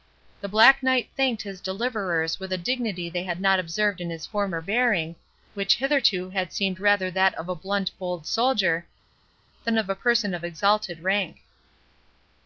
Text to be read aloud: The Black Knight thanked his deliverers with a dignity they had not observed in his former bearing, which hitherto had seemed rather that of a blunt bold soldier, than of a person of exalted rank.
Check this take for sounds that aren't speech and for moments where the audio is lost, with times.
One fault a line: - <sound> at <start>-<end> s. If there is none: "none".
none